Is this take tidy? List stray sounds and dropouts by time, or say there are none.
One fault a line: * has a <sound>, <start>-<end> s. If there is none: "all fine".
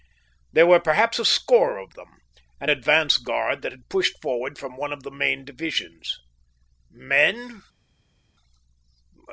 all fine